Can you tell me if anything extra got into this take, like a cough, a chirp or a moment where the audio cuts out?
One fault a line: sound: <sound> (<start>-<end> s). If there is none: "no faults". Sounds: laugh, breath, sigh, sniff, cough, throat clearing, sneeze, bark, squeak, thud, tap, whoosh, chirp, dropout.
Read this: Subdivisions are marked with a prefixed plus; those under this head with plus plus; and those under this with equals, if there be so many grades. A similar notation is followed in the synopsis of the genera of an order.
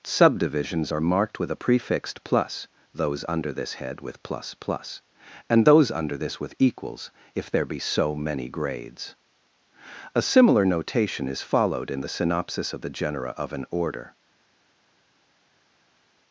no faults